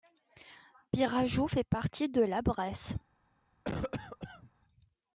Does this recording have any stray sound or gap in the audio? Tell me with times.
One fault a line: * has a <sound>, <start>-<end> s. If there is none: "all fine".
* has a cough, 3.6-4.5 s